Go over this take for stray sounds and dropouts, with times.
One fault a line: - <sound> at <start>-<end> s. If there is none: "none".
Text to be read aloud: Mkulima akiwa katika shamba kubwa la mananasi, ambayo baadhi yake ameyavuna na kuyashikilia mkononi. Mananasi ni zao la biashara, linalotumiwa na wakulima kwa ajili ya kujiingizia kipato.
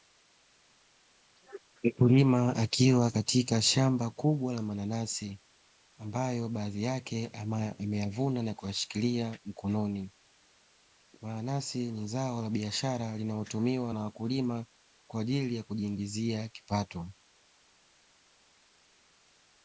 none